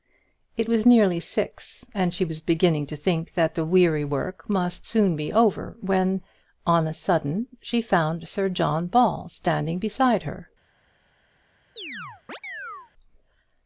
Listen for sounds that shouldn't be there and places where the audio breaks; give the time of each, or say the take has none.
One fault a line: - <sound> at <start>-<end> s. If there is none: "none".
- chirp at 11.8-12.9 s